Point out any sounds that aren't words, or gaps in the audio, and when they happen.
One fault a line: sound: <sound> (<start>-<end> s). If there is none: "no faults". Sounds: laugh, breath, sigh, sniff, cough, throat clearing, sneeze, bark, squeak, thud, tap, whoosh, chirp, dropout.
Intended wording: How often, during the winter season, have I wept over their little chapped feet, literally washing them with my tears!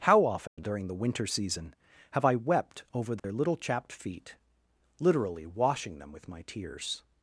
sound: dropout (0.5-0.6 s)
sound: dropout (3.2-3.2 s)